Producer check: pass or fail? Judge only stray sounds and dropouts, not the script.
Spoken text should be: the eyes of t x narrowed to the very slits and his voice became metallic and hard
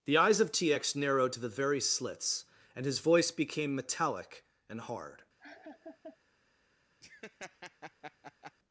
fail